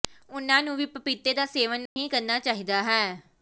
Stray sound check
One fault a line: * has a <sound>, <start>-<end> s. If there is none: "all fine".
* has a dropout, 1.9-2.0 s